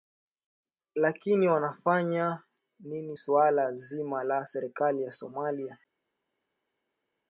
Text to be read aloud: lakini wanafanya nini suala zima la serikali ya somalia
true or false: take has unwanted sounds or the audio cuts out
false